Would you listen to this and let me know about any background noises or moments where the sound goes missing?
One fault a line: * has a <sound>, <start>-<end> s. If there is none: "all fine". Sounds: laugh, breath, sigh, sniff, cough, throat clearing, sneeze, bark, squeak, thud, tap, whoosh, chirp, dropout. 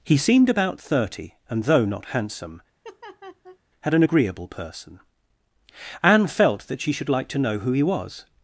* has a laugh, 2.8-3.6 s